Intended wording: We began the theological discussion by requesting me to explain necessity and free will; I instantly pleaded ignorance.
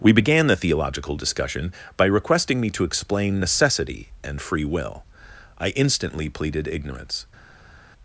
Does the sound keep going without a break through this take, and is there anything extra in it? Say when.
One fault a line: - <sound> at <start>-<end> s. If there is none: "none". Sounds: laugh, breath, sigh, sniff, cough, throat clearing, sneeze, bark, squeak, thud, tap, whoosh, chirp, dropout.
none